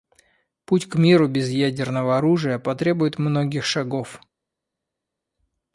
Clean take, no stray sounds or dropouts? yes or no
yes